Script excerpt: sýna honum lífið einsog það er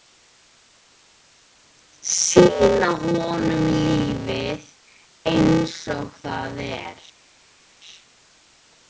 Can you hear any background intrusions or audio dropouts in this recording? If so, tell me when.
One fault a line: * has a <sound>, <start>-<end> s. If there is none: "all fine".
all fine